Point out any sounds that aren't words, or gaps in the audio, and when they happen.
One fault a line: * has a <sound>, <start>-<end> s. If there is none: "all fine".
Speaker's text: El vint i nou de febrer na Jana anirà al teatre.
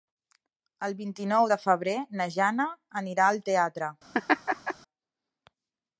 * has a laugh, 4.1-4.7 s